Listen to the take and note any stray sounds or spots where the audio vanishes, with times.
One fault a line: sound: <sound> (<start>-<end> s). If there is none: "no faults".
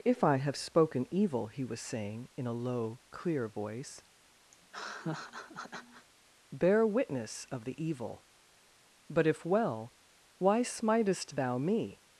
sound: laugh (4.5-6.1 s)